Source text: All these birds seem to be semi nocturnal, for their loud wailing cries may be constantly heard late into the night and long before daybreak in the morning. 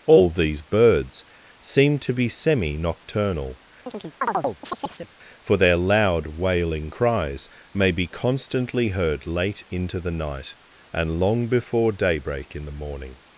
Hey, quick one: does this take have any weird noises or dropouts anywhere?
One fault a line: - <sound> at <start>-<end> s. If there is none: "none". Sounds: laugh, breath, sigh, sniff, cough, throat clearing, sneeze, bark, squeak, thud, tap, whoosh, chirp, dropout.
- chirp at 3.9-5.1 s